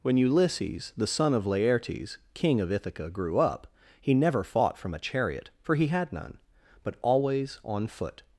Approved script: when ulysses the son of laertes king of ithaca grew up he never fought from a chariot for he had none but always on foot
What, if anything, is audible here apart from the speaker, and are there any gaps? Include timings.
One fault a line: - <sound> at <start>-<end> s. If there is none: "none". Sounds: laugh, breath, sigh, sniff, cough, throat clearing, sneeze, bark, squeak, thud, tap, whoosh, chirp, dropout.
none